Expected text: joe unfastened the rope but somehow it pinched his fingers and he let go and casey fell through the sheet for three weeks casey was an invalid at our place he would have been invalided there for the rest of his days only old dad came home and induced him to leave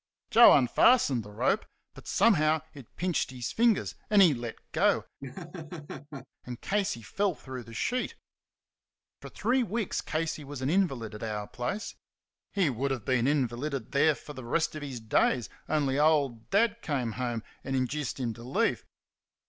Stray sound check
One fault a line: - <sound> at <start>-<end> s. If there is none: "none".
- laugh at 5.2-6.3 s